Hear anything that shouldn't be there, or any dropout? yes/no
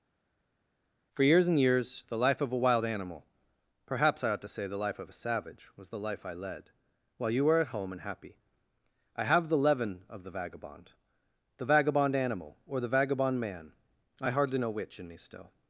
no